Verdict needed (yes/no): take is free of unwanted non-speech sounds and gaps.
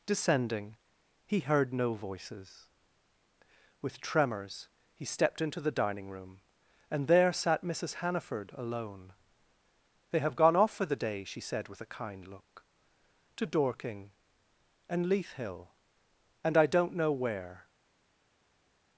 yes